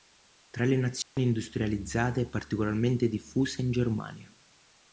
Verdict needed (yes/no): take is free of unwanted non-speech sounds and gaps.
no